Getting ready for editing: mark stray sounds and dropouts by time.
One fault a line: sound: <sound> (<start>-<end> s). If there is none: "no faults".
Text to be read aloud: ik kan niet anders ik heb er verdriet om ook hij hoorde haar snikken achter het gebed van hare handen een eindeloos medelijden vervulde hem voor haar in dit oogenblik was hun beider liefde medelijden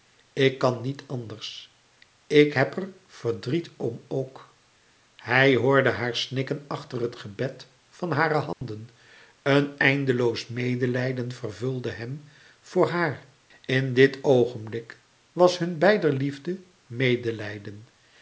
sound: dropout (8.5-8.6 s)